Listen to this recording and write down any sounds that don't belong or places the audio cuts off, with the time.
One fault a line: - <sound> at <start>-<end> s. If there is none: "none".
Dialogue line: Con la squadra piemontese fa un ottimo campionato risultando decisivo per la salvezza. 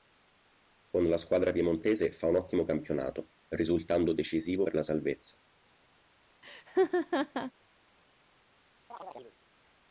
- laugh at 6.4-7.5 s
- chirp at 8.9-9.4 s